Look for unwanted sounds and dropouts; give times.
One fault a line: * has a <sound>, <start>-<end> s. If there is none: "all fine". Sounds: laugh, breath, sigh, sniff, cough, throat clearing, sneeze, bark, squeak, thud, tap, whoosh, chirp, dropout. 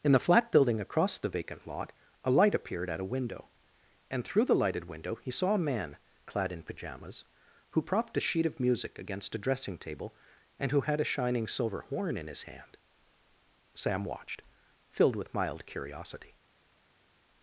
all fine